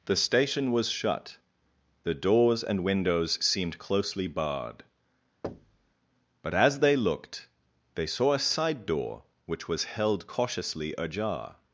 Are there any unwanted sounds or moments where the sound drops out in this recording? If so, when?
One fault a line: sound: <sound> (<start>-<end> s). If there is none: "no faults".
sound: thud (5.4-5.9 s)